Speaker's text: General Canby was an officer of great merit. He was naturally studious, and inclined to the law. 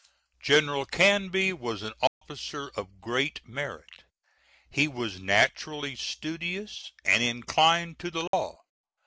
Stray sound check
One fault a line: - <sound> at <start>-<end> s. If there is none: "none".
- dropout at 2.1-2.2 s
- dropout at 8.3-8.3 s